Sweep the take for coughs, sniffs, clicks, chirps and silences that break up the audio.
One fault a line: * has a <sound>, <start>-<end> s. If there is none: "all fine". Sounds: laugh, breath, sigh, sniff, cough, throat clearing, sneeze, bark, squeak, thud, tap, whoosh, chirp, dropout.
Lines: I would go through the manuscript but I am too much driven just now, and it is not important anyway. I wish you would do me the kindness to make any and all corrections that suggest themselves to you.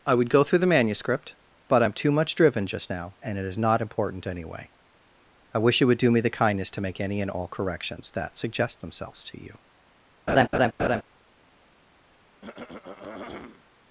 * has a laugh, 10.3-11.0 s
* has a throat clearing, 12.4-13.7 s